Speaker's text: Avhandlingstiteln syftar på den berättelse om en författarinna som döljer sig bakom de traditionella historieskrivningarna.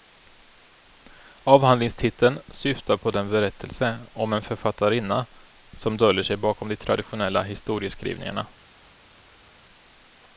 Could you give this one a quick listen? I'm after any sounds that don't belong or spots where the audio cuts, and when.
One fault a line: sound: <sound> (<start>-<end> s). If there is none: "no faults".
no faults